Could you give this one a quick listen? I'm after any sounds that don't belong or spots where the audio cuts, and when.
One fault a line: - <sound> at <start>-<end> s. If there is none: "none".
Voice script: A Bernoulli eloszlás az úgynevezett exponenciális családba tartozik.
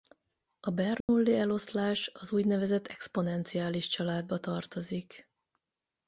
- dropout at 1.0-1.1 s